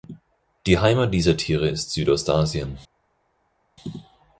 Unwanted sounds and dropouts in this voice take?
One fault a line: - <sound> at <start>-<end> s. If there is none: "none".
none